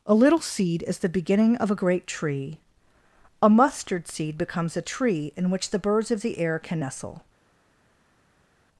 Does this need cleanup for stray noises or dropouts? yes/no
no